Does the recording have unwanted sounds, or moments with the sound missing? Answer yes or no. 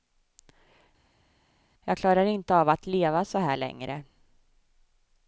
no